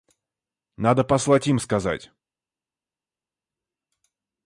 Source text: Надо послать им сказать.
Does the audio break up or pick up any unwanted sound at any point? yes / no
no